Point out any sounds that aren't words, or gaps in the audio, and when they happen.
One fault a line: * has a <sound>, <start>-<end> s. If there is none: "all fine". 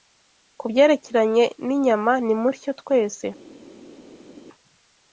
all fine